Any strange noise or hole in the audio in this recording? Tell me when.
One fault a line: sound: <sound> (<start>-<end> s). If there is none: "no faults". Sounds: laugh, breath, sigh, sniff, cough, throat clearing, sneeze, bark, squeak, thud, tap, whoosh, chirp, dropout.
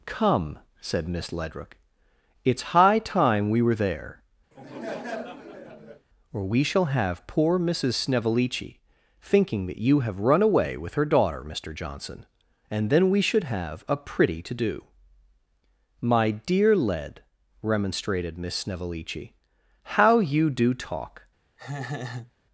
sound: laugh (4.5-6.1 s)
sound: laugh (21.6-22.3 s)